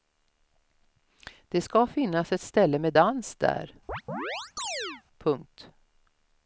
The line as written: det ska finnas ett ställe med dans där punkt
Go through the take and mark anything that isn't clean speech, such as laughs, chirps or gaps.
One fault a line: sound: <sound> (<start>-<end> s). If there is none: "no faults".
sound: chirp (3.9-5.0 s)